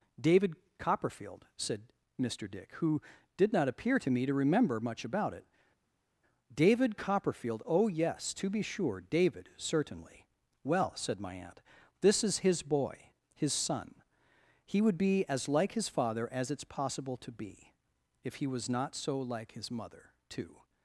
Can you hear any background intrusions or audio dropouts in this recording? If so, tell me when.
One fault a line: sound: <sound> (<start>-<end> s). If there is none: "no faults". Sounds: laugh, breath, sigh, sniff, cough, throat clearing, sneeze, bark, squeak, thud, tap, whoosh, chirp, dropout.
no faults